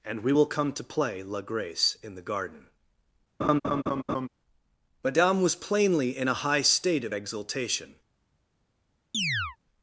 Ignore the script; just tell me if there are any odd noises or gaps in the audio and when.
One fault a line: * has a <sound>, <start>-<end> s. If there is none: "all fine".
* has a laugh, 3.4-4.3 s
* has a chirp, 9.1-9.6 s